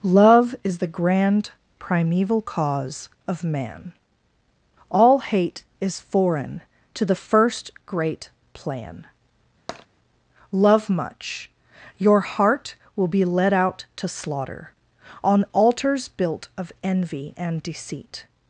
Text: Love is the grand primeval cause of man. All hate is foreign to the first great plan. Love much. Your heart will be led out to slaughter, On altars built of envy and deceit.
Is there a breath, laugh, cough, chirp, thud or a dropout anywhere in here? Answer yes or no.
yes